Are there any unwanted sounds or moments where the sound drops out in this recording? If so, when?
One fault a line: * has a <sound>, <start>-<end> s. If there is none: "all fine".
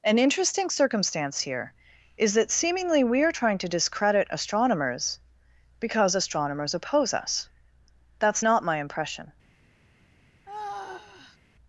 * has a sigh, 10.5-11.4 s